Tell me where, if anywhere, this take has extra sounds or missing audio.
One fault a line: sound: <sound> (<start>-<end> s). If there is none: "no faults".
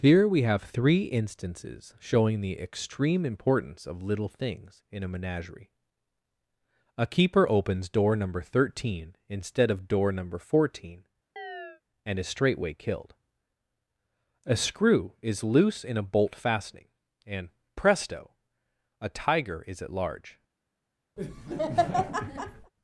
sound: chirp (11.4-11.8 s)
sound: laugh (21.2-22.7 s)